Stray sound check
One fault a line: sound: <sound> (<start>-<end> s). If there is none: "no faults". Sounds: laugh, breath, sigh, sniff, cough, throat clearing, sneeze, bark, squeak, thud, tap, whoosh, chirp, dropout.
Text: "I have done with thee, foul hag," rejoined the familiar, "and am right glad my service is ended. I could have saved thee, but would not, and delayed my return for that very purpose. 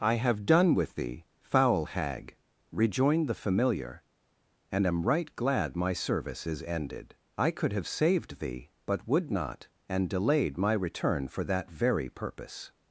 no faults